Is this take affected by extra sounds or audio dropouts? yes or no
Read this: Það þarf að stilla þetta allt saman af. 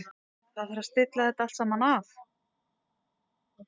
no